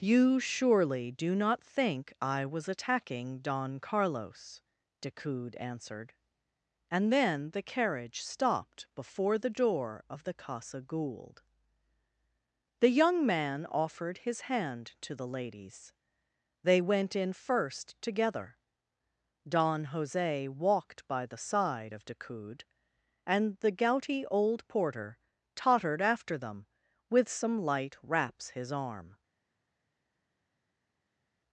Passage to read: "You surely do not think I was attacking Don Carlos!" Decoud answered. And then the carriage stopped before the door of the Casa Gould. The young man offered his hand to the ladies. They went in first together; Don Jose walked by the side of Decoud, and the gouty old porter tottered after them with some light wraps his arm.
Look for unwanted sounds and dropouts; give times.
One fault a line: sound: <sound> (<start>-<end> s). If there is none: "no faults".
no faults